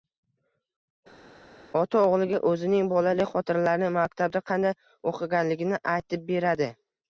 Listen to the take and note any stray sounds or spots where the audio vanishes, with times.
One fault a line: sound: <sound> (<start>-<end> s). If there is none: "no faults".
no faults